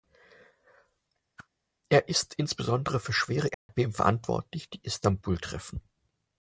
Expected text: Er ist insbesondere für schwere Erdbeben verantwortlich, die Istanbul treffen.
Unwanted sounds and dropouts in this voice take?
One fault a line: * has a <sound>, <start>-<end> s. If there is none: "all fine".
* has a whoosh, 1.4-1.5 s
* has a dropout, 3.5-3.7 s